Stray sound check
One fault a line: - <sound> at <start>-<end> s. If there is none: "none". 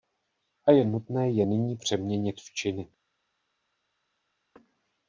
none